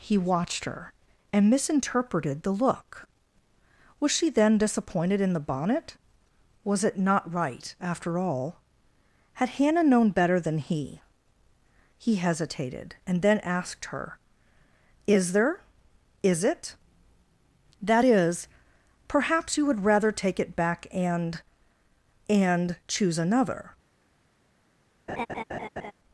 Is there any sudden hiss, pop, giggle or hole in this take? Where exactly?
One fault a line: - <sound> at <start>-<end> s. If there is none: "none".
- laugh at 25.1-25.9 s